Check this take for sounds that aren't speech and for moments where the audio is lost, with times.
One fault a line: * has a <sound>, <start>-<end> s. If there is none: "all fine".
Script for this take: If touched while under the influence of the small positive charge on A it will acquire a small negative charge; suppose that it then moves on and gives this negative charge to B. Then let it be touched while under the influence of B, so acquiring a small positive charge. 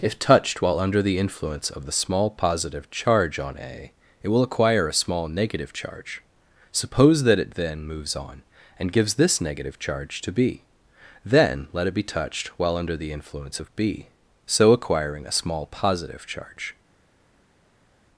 all fine